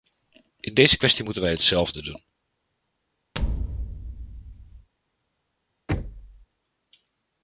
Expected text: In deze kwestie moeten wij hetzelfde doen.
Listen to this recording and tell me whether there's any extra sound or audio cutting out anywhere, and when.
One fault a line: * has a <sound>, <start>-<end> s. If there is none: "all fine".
* has a thud, 3.3-4.9 s
* has a thud, 5.9-6.5 s